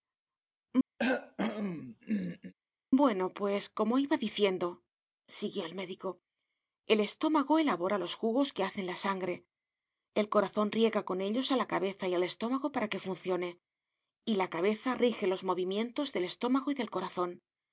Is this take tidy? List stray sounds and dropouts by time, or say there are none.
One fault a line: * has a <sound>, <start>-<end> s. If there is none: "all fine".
* has a cough, 1.0-2.5 s